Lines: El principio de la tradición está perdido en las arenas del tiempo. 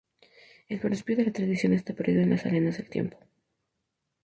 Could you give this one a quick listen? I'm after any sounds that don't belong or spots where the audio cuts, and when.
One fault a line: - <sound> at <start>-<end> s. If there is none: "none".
none